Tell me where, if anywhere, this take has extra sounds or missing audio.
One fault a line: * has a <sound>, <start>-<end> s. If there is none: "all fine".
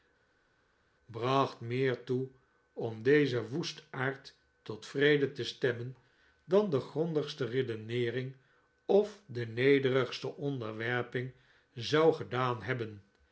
all fine